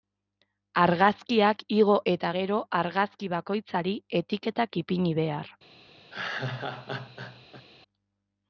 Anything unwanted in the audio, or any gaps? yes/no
yes